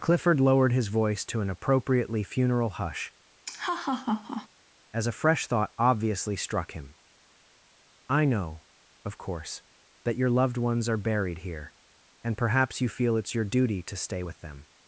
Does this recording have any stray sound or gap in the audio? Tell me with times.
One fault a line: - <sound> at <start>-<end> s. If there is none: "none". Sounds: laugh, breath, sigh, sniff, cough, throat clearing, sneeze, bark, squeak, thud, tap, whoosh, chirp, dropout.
- laugh at 3.4-4.5 s